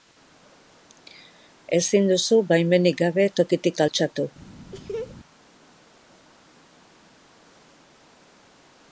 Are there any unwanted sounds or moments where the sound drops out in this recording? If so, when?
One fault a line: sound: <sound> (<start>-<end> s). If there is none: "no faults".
sound: laugh (4.7-5.2 s)